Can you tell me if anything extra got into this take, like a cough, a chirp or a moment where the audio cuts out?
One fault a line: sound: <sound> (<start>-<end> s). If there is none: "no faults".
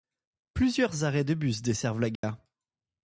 sound: dropout (2.2-2.2 s)